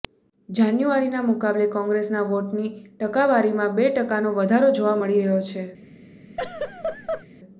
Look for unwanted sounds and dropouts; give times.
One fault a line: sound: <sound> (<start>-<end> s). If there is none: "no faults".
sound: laugh (6.4-7.3 s)